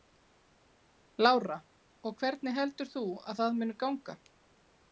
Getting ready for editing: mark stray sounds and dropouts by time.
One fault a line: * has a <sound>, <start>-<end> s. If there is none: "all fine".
all fine